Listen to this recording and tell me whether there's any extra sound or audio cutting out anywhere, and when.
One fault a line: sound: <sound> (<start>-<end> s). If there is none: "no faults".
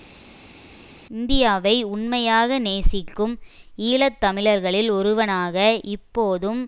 no faults